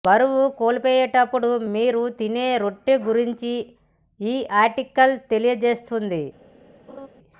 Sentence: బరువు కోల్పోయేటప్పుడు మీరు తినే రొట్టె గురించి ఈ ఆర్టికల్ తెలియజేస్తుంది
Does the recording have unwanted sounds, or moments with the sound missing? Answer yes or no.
yes